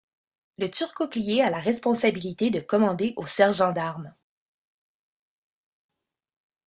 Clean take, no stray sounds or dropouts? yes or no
yes